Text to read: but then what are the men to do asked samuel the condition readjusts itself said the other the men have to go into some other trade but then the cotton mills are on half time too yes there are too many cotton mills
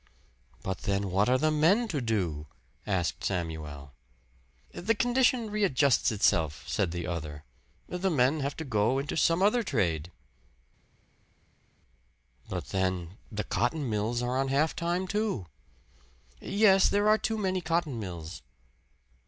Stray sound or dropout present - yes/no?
no